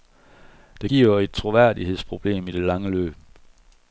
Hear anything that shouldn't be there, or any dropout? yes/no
no